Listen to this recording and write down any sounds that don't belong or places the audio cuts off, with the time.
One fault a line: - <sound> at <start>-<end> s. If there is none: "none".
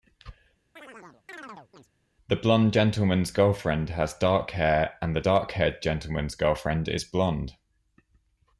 - chirp at 0.8-1.9 s